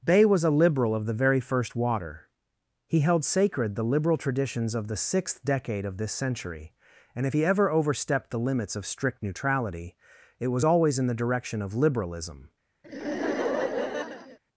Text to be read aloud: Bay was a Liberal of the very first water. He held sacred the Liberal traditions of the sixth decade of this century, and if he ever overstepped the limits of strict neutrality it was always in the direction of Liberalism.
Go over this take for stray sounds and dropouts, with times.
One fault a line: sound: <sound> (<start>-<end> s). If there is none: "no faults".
sound: laugh (12.8-14.4 s)